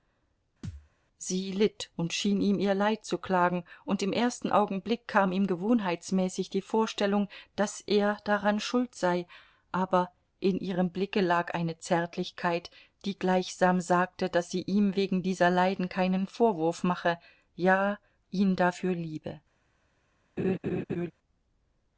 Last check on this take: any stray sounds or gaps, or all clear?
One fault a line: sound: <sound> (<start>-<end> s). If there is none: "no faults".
sound: thud (0.6-0.9 s)
sound: laugh (20.4-21.1 s)